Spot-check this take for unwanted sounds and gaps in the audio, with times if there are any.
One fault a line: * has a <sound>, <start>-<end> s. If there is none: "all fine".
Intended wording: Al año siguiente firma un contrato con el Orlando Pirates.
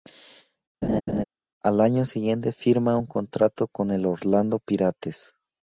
* has a laugh, 0.8-1.2 s